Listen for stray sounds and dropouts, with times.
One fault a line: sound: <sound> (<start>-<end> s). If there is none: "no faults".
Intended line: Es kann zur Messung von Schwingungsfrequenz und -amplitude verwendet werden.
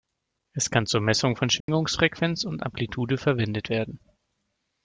sound: dropout (1.6-1.7 s)